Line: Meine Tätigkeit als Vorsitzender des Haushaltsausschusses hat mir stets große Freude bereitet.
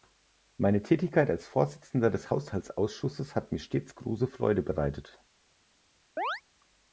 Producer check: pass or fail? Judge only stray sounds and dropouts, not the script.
fail